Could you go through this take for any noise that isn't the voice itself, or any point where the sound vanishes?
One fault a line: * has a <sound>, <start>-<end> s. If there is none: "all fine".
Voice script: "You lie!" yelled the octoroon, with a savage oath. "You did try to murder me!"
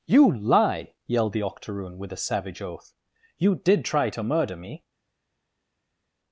all fine